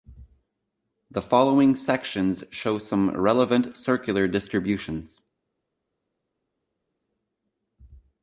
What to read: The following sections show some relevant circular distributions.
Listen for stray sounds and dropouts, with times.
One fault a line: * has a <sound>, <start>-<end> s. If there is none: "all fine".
all fine